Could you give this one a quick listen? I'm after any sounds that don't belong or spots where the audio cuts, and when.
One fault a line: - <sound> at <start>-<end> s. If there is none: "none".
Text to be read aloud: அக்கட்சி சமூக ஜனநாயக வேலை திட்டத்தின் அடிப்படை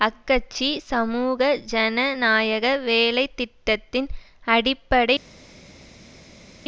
none